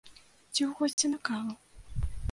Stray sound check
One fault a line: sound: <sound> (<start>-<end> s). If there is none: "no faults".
sound: dropout (0.9-1.0 s)